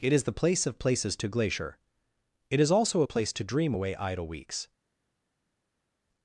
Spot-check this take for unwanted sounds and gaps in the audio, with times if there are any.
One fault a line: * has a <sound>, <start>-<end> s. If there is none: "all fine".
all fine